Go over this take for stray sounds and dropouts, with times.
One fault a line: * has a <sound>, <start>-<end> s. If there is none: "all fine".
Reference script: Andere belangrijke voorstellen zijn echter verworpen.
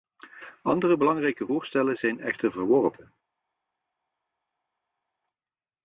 all fine